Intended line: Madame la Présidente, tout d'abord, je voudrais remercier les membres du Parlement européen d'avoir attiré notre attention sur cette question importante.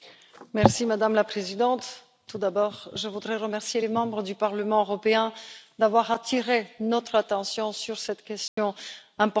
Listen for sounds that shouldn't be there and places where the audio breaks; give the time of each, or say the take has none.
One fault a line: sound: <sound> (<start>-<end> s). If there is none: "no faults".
sound: dropout (8.5-8.6 s)